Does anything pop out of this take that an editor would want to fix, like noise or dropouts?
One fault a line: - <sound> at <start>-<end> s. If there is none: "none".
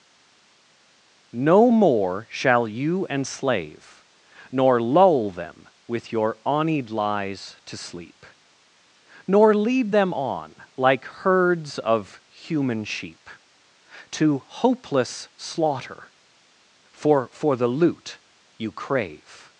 none